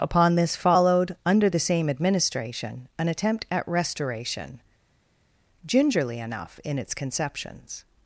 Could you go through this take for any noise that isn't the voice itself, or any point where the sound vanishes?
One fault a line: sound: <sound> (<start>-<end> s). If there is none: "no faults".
no faults